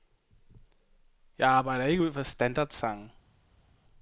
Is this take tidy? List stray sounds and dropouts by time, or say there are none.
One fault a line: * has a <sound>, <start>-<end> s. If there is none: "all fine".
all fine